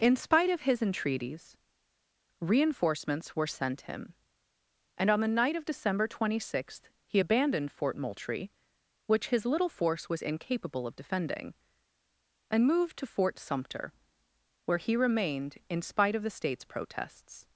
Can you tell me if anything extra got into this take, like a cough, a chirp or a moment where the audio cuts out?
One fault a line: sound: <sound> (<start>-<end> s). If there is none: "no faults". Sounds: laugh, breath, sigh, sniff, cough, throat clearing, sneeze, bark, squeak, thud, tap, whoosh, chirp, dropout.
no faults